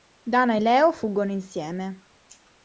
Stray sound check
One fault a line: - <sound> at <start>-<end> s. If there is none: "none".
none